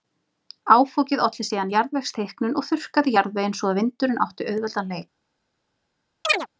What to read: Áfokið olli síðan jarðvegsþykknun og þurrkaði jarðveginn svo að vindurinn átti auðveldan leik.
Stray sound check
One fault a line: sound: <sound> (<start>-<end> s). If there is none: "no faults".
sound: chirp (6.2-6.5 s)